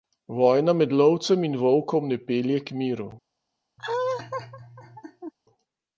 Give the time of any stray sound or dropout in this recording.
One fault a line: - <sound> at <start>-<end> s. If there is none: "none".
- laugh at 3.8-5.3 s